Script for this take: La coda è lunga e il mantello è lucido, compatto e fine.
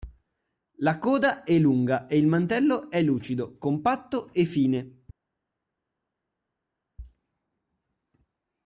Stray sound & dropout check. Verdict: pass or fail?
pass